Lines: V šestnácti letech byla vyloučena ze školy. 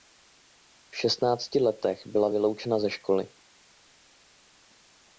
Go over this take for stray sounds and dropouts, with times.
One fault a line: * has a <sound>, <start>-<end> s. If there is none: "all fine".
all fine